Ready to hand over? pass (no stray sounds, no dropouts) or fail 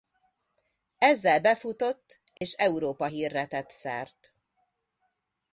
fail